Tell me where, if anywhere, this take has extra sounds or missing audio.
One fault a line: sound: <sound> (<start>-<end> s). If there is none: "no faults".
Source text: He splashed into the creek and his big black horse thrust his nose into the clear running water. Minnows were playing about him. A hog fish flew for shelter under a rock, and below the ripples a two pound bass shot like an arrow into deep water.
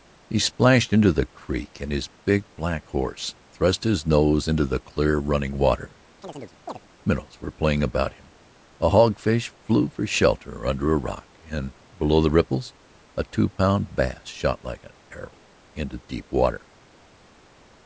sound: chirp (6.2-6.8 s)